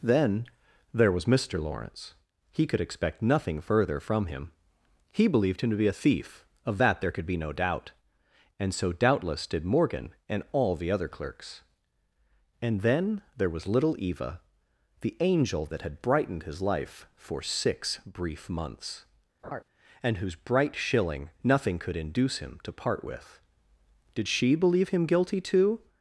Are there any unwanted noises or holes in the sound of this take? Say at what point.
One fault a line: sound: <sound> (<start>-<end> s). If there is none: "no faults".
sound: laugh (19.4-19.6 s)